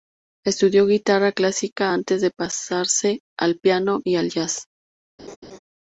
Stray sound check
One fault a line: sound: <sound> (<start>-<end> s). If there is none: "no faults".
sound: laugh (5.2-5.6 s)